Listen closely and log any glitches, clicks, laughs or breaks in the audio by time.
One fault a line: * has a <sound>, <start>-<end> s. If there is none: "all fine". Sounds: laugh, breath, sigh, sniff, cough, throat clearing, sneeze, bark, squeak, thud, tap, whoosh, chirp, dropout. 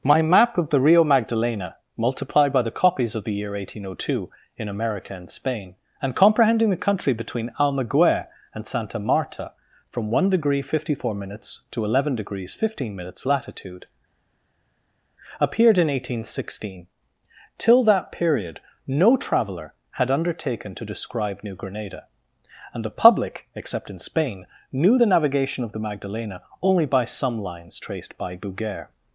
all fine